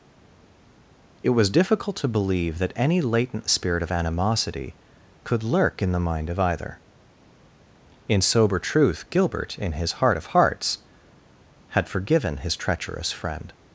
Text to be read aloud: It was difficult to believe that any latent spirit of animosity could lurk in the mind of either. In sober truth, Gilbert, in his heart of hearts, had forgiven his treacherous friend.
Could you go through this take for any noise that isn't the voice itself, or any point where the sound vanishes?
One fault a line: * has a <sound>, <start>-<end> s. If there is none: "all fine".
all fine